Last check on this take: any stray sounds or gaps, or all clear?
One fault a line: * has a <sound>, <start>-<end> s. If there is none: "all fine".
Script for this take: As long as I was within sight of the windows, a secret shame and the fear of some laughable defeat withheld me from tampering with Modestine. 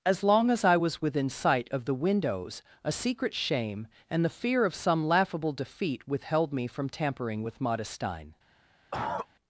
* has a cough, 8.9-9.3 s